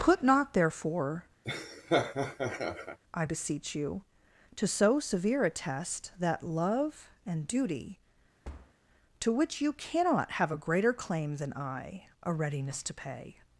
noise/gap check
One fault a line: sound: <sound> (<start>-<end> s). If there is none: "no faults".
sound: laugh (1.4-3.0 s)
sound: thud (8.4-8.7 s)